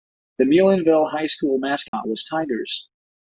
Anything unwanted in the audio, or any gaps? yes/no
yes